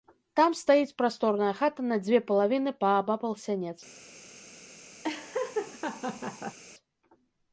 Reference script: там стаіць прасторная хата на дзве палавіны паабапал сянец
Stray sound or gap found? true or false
true